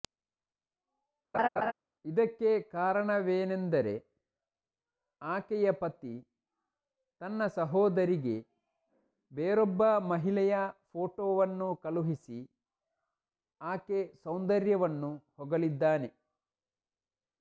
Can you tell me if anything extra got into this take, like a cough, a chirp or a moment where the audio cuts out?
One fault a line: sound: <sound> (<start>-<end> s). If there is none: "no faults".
sound: laugh (1.3-1.7 s)